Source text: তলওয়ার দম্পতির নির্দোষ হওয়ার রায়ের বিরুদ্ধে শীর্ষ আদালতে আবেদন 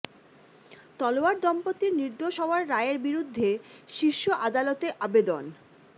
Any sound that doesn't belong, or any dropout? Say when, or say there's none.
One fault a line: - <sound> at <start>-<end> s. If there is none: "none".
none